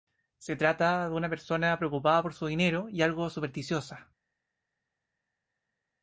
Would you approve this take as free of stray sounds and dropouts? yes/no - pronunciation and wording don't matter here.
yes